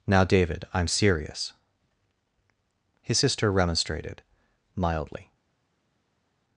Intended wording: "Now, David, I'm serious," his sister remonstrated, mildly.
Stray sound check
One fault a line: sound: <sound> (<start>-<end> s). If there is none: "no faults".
no faults